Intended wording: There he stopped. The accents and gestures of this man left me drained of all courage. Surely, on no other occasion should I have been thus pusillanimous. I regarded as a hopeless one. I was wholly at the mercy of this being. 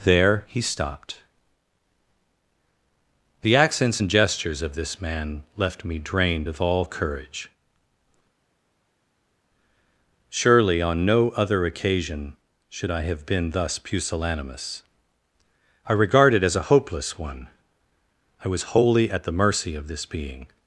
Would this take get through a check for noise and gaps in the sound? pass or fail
pass